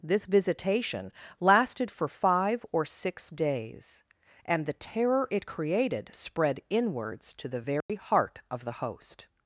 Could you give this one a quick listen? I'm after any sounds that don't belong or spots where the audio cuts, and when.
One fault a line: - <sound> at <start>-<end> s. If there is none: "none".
- dropout at 7.8-7.9 s